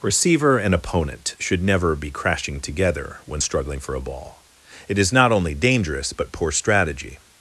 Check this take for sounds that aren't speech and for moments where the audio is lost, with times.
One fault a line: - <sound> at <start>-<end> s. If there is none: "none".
none